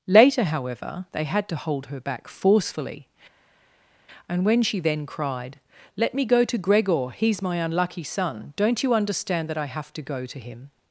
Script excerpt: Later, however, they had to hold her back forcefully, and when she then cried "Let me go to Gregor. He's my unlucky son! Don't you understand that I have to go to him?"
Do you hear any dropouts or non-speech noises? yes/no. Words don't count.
no